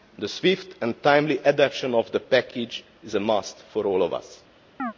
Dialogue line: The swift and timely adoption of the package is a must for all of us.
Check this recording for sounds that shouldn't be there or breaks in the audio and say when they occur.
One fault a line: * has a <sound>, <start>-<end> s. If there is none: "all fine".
* has a chirp, 4.8-4.9 s